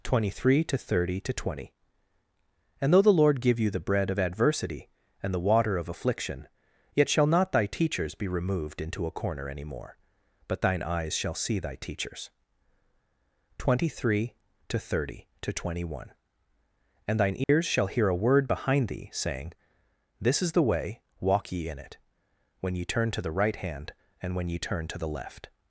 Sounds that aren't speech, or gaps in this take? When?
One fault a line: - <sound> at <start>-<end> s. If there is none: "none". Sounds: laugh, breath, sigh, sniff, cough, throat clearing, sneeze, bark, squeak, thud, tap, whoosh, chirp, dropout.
- dropout at 17.4-17.5 s